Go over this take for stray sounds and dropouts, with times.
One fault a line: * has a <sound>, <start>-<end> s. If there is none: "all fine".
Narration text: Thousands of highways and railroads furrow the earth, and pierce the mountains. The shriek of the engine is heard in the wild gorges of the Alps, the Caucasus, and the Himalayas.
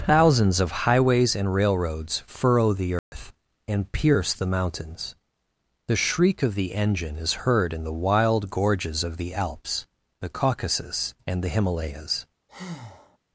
* has a dropout, 3.0-3.1 s
* has a breath, 12.5-13.2 s